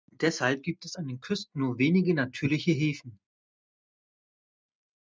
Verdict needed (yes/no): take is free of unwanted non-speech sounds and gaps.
yes